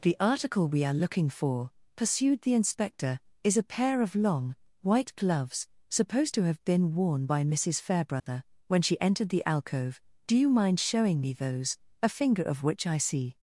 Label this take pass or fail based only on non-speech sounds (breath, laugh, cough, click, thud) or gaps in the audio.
fail